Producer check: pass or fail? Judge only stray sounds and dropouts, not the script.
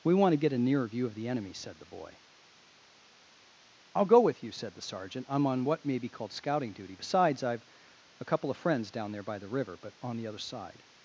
pass